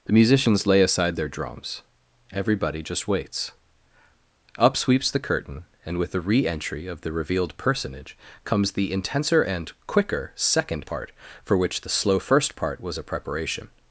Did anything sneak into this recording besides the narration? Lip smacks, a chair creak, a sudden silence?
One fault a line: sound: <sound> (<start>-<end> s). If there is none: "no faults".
no faults